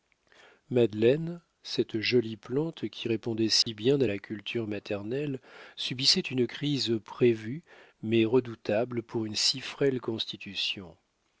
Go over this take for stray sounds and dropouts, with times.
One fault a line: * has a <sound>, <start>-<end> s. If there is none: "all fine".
* has a dropout, 3.6-3.7 s